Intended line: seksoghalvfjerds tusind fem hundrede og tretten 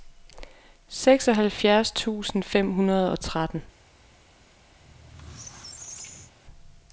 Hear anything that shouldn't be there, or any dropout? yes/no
yes